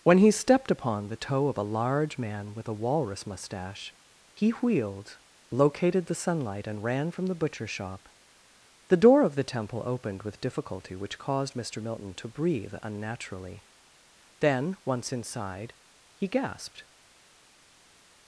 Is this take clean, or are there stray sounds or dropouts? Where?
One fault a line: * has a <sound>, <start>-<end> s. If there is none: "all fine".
all fine